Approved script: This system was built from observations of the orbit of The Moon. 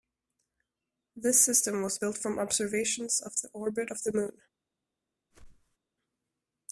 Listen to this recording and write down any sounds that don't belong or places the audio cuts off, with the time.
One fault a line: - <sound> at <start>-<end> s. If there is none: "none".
- whoosh at 5.3-5.8 s